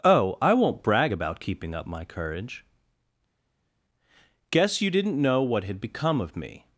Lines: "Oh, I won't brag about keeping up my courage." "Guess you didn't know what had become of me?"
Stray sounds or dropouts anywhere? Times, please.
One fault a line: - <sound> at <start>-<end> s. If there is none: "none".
none